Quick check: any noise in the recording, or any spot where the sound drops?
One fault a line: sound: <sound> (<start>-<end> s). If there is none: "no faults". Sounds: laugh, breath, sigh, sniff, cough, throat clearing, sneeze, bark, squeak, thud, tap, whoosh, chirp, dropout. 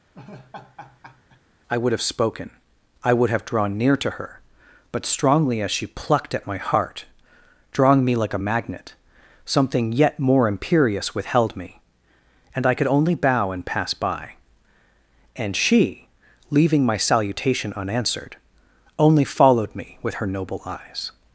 sound: laugh (0.1-1.4 s)